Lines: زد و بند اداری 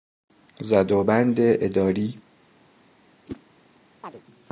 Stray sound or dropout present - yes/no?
yes